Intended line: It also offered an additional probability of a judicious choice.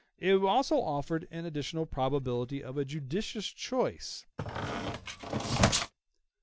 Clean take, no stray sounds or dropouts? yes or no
no